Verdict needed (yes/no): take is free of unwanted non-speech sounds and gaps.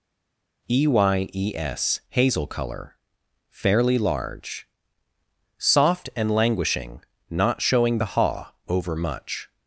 yes